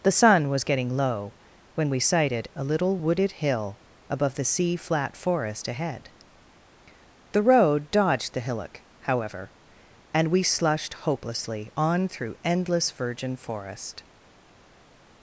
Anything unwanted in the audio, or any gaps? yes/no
no